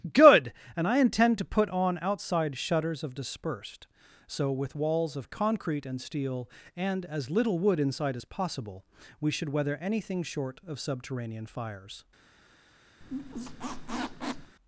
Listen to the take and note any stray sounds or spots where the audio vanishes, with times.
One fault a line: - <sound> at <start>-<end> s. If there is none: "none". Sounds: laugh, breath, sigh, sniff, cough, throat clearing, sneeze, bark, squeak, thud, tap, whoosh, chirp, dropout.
- squeak at 13.0-14.6 s